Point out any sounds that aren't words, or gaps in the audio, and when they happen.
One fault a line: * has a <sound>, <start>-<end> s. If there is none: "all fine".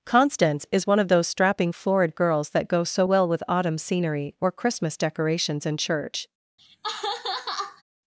* has a laugh, 6.6-7.8 s